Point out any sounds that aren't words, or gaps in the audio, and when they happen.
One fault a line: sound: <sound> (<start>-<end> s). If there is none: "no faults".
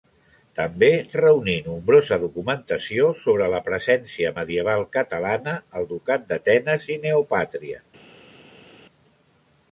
no faults